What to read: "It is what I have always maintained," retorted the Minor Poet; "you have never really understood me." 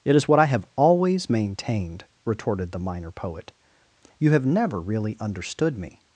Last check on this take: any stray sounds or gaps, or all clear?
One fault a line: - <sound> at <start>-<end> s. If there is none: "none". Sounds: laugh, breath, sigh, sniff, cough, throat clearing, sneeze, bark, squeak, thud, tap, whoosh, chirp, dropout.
none